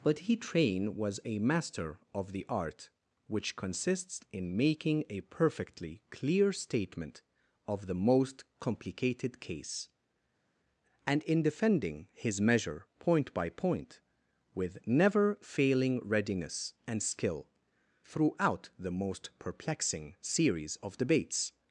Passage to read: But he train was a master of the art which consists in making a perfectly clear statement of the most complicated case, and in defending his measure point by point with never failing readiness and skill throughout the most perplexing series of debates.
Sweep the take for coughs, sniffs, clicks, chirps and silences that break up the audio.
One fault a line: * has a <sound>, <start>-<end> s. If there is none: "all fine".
all fine